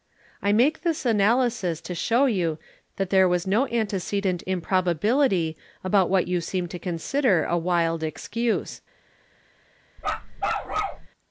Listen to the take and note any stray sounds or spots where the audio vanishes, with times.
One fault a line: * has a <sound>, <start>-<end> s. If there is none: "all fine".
* has a bark, 10.0-11.1 s